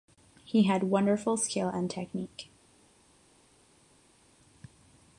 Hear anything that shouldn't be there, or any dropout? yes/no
no